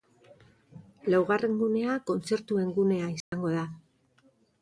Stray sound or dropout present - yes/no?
yes